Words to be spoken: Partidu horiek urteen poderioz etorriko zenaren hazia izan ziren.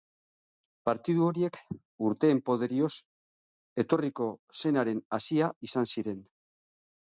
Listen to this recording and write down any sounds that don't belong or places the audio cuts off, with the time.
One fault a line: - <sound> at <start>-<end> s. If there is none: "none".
none